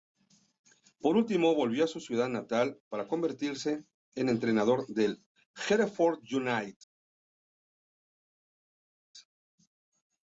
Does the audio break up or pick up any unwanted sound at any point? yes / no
no